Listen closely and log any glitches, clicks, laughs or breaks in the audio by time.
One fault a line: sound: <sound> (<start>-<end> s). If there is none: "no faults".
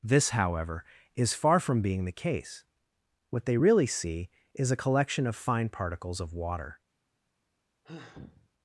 sound: sigh (7.8-8.5 s)